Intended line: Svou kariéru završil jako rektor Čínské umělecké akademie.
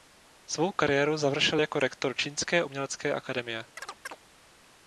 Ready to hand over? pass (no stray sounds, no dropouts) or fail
fail